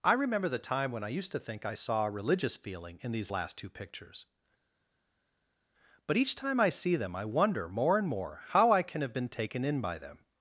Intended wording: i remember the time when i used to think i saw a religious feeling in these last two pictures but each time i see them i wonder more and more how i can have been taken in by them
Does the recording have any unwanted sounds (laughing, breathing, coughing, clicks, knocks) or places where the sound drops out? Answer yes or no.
no